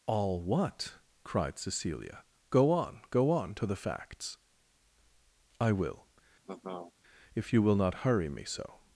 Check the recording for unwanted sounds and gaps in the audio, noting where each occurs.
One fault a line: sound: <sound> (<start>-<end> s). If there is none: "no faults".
sound: laugh (6.4-6.9 s)